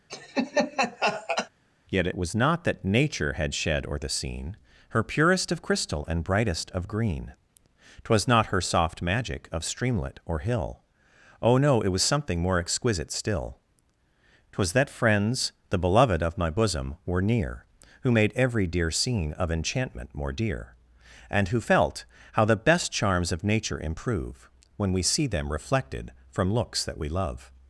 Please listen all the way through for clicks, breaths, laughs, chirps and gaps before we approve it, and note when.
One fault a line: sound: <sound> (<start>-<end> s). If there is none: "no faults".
sound: laugh (0.1-1.5 s)